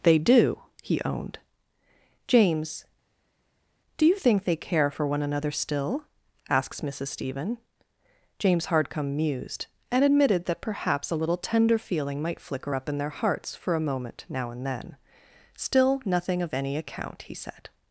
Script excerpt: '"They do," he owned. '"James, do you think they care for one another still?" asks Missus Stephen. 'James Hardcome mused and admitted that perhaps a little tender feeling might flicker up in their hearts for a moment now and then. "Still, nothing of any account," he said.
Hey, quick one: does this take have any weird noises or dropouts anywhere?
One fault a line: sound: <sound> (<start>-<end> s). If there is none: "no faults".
no faults